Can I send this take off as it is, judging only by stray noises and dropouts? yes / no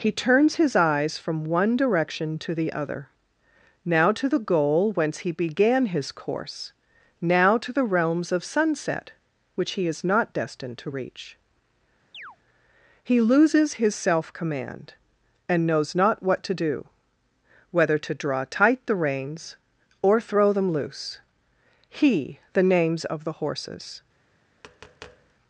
no